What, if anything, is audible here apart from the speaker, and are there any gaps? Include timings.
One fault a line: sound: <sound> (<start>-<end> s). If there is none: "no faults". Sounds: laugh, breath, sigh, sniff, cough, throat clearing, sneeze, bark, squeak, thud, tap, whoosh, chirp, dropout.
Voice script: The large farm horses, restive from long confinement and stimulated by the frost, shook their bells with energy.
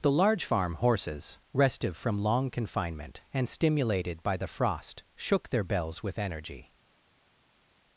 no faults